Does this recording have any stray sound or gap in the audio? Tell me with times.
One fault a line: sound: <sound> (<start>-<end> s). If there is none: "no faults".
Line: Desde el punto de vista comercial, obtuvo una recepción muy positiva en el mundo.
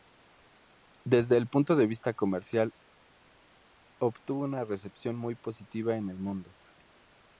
no faults